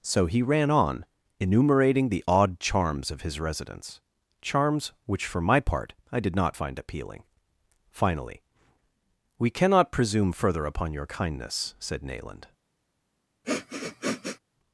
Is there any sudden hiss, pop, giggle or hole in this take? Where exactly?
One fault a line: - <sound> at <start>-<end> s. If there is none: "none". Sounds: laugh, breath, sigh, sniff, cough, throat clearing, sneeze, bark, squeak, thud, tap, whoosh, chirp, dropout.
- sniff at 13.4-14.4 s